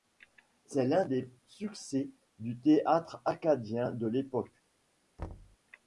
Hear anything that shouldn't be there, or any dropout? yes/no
yes